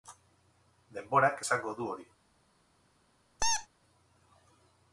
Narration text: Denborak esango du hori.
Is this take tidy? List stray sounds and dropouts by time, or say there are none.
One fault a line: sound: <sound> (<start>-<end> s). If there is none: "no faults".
sound: squeak (3.4-3.7 s)